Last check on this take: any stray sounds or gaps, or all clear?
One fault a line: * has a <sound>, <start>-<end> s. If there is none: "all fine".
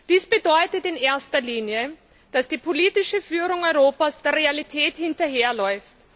all fine